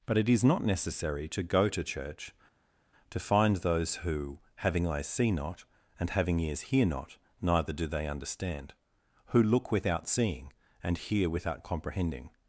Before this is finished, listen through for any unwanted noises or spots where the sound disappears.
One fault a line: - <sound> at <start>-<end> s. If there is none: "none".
none